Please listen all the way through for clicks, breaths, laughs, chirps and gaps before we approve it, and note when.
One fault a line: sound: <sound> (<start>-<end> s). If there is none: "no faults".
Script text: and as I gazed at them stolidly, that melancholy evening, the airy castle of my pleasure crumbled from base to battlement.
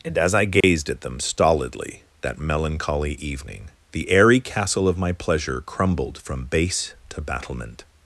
sound: dropout (0.6-0.6 s)